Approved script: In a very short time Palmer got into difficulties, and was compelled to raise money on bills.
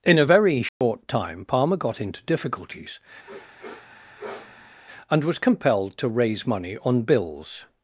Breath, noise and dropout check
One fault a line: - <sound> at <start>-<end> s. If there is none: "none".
- dropout at 0.7-0.8 s
- sniff at 3.3-4.8 s